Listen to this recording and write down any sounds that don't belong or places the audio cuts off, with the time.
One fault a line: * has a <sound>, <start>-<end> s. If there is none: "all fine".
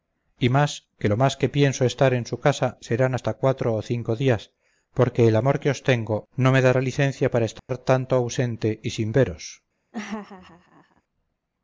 * has a dropout, 7.6-7.7 s
* has a laugh, 9.9-11.0 s